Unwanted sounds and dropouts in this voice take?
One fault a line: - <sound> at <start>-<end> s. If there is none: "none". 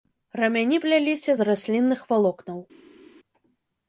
none